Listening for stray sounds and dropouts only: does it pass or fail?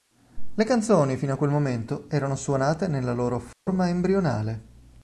fail